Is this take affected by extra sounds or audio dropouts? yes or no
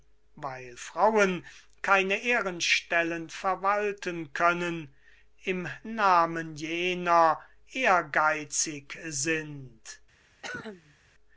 yes